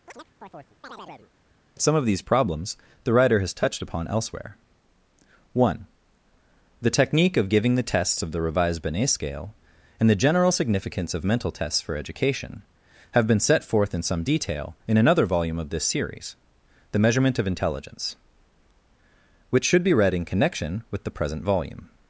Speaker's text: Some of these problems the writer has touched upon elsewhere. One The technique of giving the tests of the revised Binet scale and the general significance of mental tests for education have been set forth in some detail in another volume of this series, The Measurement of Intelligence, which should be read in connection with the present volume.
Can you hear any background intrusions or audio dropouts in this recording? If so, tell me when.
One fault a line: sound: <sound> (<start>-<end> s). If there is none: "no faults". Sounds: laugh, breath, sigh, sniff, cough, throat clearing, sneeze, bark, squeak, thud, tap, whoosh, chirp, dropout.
sound: chirp (0.1-1.3 s)